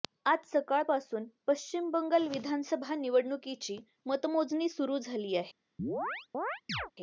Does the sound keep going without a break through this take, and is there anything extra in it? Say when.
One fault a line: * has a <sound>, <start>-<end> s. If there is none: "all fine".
* has a chirp, 5.8-6.9 s